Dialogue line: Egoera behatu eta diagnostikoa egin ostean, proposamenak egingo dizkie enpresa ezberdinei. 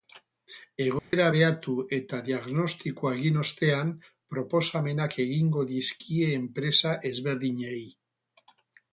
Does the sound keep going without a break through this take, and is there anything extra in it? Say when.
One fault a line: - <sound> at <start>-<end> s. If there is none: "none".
- dropout at 1.0-1.1 s